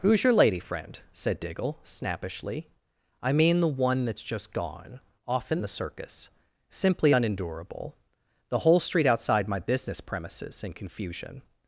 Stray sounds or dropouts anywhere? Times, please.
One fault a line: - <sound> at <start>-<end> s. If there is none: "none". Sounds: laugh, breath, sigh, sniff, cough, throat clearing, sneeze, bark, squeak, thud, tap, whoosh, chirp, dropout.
none